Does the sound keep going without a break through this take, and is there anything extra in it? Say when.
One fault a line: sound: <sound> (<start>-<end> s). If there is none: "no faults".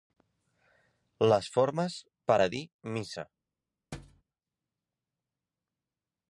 sound: thud (3.9-4.2 s)